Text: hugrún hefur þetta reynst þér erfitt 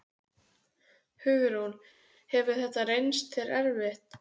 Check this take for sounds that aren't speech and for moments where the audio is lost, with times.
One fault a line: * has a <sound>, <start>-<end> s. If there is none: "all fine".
all fine